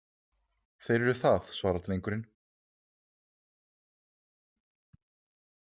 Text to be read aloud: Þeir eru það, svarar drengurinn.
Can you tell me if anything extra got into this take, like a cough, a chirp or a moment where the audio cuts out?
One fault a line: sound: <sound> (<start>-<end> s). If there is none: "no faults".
no faults